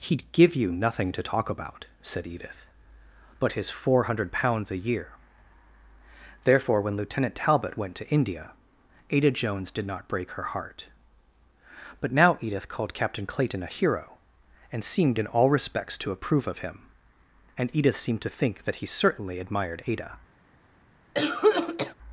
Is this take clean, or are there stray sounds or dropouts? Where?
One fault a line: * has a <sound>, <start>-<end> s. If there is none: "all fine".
* has a cough, 21.1-21.9 s